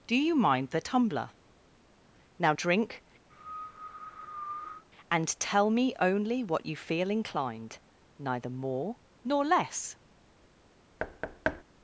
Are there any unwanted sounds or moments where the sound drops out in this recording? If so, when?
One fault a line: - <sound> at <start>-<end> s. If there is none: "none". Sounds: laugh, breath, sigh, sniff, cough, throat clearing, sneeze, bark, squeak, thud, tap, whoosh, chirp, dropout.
- cough at 3.3-4.8 s
- thud at 11.0-11.6 s